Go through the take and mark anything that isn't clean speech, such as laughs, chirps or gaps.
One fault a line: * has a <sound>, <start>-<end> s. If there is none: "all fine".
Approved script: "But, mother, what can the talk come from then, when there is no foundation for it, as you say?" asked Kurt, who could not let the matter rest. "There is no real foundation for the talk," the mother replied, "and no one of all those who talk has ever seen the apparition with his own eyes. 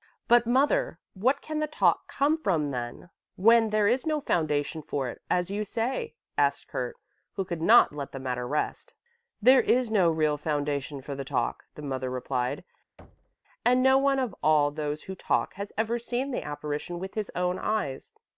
* has a thud, 13.0-13.4 s